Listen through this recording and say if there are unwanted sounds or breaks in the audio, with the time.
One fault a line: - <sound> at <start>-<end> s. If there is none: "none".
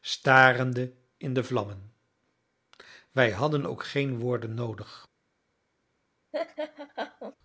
- laugh at 6.3-7.4 s